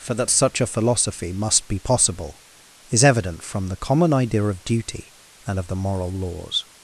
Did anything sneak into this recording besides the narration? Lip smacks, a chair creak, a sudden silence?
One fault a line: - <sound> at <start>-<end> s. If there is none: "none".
none